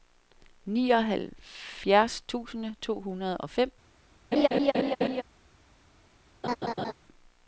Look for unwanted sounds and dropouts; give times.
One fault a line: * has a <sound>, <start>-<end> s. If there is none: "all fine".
* has a laugh, 4.3-5.2 s
* has a laugh, 6.4-6.9 s